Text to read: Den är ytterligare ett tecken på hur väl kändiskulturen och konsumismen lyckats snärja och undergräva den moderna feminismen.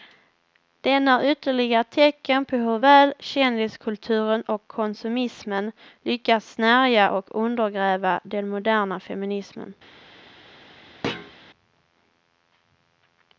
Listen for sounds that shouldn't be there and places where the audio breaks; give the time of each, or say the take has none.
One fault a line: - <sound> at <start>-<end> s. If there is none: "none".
- thud at 11.0-11.3 s